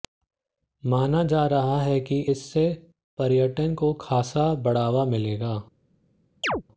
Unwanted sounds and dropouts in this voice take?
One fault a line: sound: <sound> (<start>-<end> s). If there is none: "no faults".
sound: chirp (6.4-6.6 s)